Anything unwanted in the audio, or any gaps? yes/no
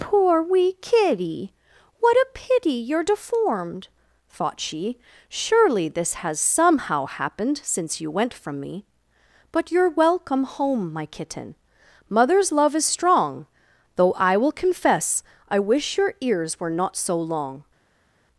no